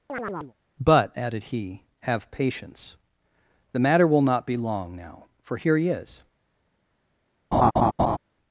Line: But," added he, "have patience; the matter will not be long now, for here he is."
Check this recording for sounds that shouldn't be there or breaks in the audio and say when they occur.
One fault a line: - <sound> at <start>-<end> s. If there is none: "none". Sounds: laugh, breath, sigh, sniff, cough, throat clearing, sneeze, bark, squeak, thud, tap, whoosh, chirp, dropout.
- chirp at 0.1-0.5 s
- laugh at 7.5-8.2 s